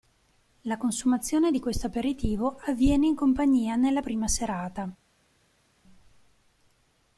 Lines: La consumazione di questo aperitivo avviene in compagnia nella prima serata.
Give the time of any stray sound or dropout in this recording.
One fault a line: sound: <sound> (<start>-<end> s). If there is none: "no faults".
no faults